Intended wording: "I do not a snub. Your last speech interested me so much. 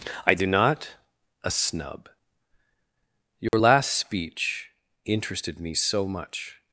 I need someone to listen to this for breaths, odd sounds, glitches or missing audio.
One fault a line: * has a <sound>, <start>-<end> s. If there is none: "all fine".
* has a dropout, 3.5-3.5 s